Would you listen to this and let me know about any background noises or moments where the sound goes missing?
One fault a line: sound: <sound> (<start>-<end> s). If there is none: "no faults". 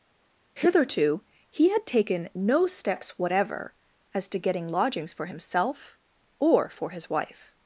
no faults